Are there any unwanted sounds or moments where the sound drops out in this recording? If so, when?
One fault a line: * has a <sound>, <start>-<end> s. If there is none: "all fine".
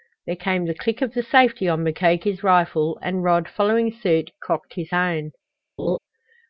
* has a laugh, 5.8-6.0 s